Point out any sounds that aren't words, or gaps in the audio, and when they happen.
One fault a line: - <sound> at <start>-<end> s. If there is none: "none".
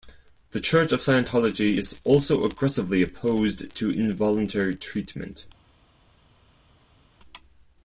none